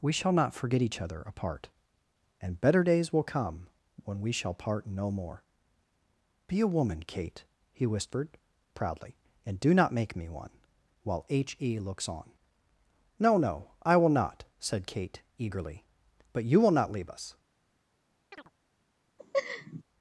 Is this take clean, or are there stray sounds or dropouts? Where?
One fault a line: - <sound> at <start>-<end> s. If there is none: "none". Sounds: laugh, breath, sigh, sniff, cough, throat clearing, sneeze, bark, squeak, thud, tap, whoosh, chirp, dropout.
- chirp at 18.3-18.5 s
- laugh at 19.2-19.8 s